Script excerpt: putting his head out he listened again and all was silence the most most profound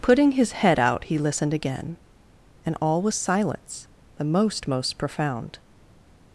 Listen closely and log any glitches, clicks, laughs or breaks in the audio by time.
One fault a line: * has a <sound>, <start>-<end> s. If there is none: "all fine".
all fine